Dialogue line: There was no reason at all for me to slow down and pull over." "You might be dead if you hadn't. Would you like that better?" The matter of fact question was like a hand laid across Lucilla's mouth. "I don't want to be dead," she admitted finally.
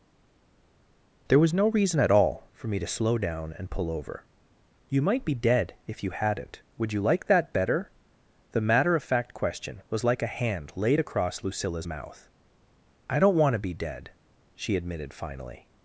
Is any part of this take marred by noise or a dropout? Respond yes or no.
no